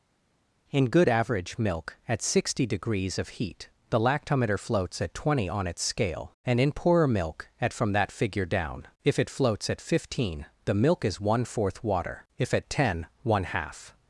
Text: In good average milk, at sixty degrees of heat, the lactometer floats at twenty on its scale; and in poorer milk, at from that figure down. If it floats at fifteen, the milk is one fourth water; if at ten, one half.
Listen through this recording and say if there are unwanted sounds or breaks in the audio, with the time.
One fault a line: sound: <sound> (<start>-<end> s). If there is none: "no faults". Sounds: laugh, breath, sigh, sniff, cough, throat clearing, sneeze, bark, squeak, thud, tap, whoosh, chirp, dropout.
no faults